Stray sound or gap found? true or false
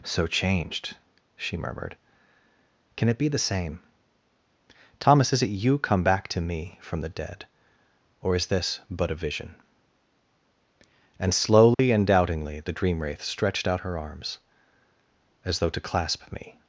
true